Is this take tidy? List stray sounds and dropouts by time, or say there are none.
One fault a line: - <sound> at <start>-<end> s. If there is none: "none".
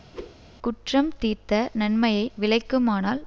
- whoosh at 0.1-0.4 s